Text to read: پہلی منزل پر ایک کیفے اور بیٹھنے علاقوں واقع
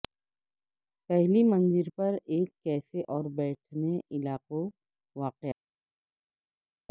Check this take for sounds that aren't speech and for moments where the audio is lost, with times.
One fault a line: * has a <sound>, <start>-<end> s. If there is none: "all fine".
all fine